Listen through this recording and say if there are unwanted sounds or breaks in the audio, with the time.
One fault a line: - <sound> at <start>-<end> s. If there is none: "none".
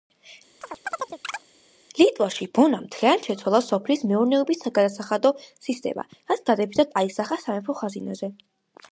- chirp at 0.6-1.4 s